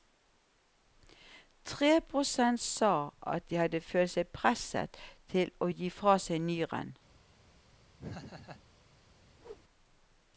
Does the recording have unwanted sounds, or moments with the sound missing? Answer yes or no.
yes